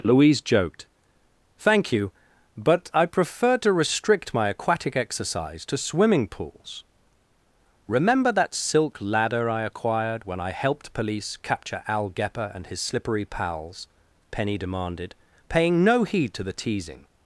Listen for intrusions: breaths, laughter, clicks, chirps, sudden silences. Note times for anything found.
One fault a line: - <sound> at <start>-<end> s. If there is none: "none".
none